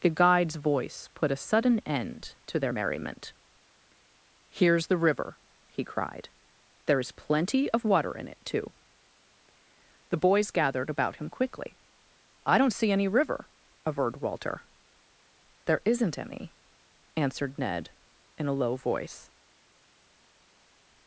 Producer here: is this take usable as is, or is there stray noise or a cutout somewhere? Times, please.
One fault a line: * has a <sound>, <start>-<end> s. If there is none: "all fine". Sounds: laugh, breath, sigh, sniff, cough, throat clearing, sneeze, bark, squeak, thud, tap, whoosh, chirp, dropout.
all fine